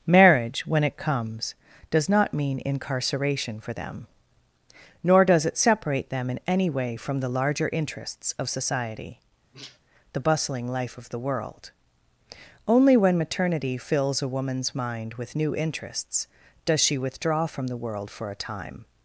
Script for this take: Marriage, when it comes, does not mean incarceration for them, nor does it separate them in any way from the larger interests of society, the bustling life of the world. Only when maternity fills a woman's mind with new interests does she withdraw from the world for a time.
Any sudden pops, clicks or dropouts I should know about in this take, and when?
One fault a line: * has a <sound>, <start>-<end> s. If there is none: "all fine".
* has a sneeze, 9.5-9.8 s